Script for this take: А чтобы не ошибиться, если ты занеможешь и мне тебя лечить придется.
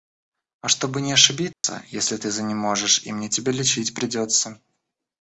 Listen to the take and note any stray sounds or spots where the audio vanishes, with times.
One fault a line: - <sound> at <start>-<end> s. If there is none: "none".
- dropout at 1.5-1.6 s